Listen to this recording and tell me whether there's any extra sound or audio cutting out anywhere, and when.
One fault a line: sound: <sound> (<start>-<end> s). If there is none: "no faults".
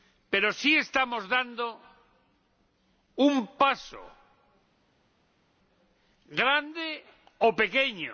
no faults